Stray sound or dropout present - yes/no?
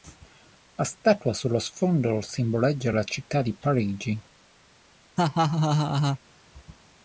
yes